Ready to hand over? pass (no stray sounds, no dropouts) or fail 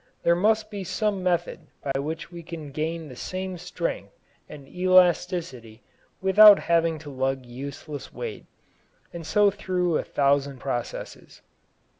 fail